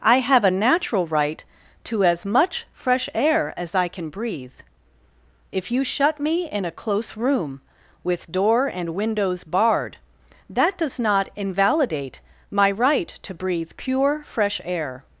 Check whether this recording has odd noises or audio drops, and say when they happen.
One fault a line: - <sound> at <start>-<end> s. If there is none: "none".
none